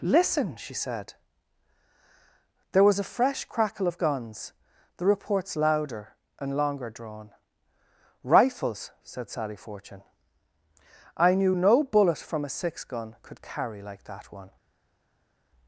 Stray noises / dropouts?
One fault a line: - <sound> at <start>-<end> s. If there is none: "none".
none